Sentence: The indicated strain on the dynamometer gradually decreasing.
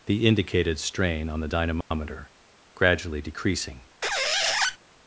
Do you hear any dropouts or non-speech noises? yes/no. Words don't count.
yes